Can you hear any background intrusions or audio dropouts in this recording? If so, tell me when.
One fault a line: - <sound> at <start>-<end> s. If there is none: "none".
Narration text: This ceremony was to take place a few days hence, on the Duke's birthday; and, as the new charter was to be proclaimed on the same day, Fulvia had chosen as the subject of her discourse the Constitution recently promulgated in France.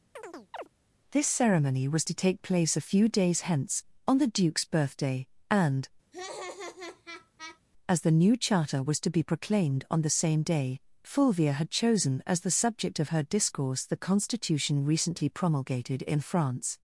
- chirp at 0.2-0.7 s
- laugh at 6.1-7.6 s